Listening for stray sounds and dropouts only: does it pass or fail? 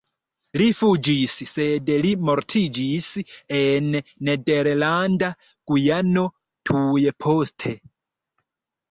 pass